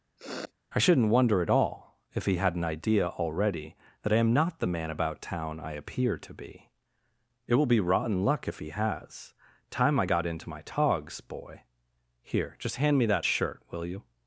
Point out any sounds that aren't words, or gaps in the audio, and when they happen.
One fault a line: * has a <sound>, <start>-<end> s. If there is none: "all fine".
* has a sniff, 0.2-0.5 s